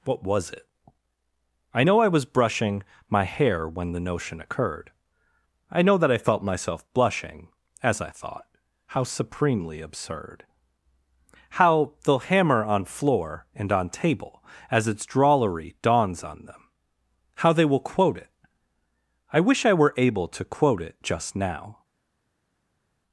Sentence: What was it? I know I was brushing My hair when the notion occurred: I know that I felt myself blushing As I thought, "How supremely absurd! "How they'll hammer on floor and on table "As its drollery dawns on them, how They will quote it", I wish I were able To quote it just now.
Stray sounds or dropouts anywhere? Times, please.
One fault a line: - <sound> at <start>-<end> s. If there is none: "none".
none